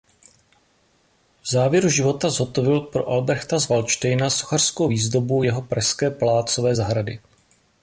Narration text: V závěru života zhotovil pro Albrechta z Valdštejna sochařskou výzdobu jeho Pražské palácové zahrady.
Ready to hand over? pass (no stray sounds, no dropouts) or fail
pass